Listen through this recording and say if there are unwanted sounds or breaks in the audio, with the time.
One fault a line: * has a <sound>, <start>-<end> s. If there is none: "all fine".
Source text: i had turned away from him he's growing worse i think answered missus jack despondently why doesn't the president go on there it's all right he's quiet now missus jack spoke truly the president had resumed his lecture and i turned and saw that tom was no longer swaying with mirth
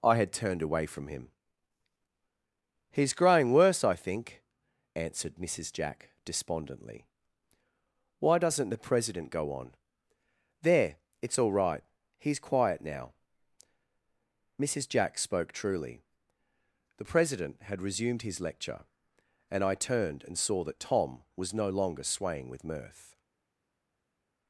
all fine